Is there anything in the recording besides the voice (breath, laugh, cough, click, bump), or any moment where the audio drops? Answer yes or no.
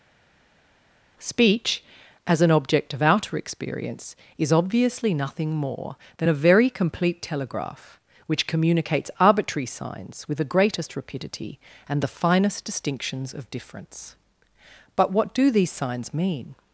no